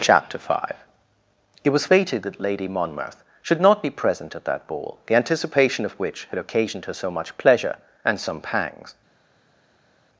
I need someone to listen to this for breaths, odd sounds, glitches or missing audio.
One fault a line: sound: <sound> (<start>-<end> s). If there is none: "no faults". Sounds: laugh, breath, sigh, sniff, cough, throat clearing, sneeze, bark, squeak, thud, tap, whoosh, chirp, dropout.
no faults